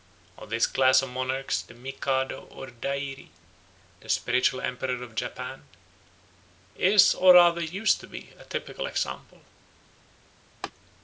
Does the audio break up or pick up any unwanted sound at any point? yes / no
yes